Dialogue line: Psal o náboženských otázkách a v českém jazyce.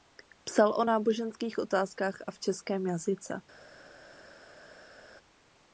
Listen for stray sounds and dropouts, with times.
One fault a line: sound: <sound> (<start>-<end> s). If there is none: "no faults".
no faults